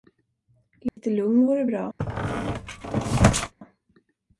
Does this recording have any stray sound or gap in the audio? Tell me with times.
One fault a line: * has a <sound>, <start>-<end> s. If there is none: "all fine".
* has a dropout, 0.9-1.0 s
* has a squeak, 2.0-3.5 s